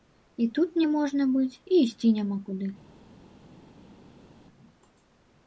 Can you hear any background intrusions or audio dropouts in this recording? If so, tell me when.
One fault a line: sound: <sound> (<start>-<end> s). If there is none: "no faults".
no faults